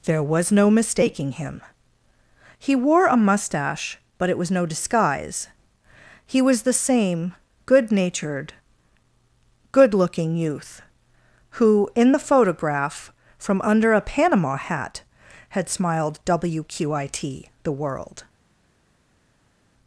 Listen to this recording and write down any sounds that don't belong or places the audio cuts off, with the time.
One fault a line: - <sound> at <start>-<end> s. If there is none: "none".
none